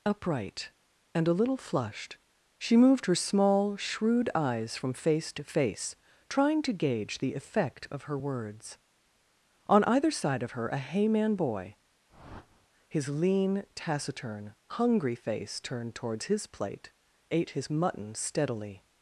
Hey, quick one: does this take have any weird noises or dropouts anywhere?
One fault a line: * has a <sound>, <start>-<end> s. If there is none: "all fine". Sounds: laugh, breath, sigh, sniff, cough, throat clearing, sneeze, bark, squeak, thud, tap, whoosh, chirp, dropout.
* has a whoosh, 12.1-12.7 s